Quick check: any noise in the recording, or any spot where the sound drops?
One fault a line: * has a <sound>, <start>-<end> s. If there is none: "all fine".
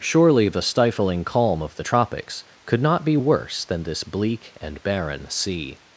all fine